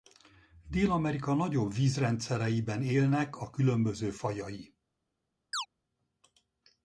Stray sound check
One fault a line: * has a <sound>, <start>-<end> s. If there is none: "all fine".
* has a chirp, 5.5-5.7 s